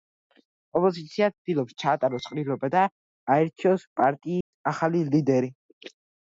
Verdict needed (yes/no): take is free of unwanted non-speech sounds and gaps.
no